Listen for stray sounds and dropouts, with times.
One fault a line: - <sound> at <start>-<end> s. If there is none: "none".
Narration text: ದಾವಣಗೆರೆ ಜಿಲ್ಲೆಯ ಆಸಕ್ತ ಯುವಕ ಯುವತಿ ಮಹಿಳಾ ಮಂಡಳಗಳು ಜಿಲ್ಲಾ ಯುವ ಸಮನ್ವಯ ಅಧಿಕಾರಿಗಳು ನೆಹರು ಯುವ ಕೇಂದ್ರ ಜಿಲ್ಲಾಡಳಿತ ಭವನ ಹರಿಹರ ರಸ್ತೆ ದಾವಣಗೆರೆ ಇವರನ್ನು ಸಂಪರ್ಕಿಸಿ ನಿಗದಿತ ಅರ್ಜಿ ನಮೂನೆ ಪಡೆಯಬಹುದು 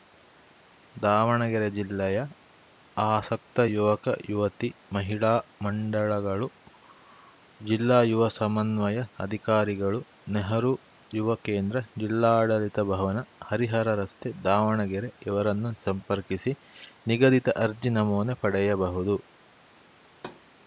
- thud at 20.1-20.4 s